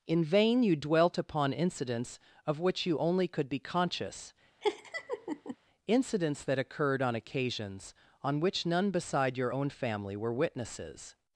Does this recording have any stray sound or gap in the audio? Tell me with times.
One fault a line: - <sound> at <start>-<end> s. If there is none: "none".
- laugh at 4.6-5.6 s